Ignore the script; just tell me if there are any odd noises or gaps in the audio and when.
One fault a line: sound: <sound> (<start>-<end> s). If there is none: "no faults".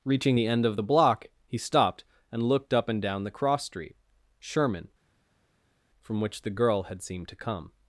no faults